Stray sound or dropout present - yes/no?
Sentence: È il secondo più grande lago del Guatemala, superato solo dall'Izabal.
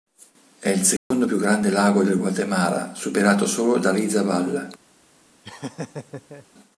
yes